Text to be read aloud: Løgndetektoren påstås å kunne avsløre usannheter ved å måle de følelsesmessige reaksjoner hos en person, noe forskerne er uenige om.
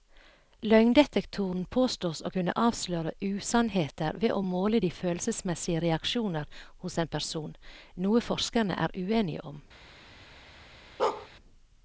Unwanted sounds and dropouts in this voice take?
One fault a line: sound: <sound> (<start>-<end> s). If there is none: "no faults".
sound: bark (11.0-11.3 s)